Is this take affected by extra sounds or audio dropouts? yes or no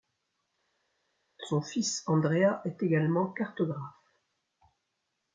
no